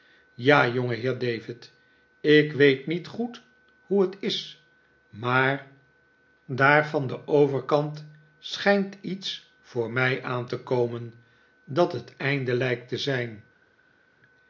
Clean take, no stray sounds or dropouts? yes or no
yes